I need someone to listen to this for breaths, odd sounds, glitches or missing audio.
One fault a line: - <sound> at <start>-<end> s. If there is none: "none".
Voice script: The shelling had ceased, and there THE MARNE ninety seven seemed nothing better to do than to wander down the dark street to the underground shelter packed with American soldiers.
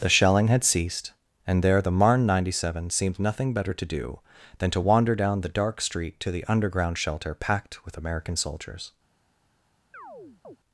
- chirp at 9.9-10.6 s